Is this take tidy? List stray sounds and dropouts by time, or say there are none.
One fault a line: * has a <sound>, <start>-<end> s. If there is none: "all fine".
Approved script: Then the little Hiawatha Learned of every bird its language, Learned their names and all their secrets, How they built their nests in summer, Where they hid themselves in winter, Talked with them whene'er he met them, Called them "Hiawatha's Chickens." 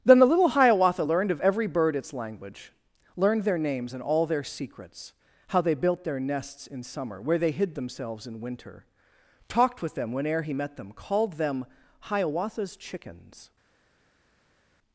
all fine